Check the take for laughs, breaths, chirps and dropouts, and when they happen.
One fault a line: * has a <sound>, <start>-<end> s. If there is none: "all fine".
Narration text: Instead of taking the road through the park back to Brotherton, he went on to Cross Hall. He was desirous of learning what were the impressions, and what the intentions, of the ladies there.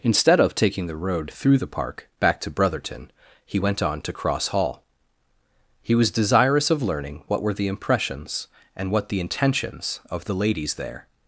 all fine